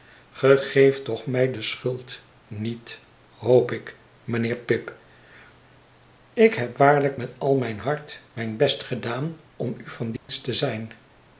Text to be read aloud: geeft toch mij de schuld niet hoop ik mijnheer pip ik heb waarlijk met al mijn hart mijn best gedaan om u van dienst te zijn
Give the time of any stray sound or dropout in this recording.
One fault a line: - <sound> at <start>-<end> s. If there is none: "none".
- dropout at 10.2-10.3 s